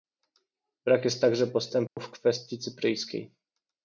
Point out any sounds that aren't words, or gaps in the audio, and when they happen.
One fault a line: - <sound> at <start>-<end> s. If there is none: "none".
- dropout at 1.9-2.0 s